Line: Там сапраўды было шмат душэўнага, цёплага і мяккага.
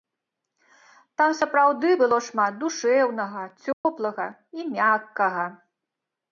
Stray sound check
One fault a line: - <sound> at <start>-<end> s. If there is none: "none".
- dropout at 3.7-3.9 s